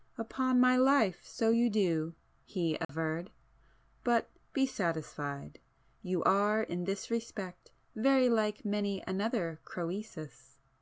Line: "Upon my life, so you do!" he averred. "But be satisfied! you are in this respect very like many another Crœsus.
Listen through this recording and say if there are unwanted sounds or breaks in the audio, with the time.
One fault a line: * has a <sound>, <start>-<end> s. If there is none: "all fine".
* has a dropout, 2.8-2.9 s